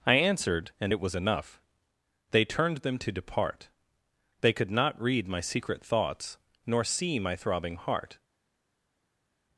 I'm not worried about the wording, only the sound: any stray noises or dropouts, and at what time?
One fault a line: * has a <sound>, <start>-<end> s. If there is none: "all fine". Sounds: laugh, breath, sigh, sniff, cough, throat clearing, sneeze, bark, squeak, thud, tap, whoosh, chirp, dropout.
all fine